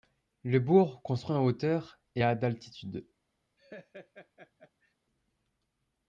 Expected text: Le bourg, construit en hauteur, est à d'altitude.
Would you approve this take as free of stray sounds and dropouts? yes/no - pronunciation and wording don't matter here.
no